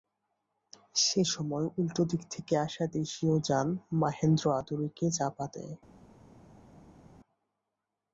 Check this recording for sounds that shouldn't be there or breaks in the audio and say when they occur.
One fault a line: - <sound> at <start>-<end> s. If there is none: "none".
none